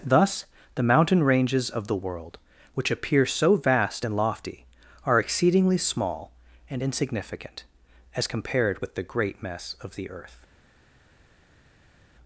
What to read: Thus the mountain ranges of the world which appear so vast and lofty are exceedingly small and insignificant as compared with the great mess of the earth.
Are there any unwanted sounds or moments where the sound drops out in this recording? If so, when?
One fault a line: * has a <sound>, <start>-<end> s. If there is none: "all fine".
all fine